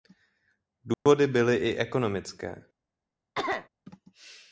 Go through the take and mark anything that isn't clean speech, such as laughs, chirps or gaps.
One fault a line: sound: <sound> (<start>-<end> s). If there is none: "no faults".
sound: dropout (0.9-1.1 s)
sound: cough (3.3-3.7 s)